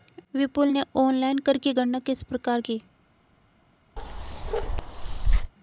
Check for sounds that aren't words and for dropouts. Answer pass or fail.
fail